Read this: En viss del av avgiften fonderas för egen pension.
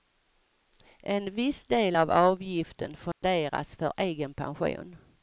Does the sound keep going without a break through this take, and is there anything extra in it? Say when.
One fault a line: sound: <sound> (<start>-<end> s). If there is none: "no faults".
sound: dropout (3.1-3.2 s)